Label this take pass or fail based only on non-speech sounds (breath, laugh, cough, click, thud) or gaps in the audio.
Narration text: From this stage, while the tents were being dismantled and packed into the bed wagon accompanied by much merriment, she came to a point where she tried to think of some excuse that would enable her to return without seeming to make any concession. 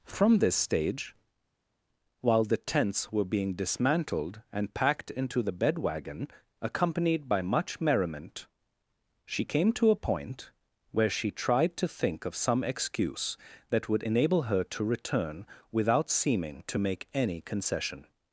pass